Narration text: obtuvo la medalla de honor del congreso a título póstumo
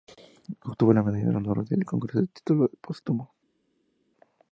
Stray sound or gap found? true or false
false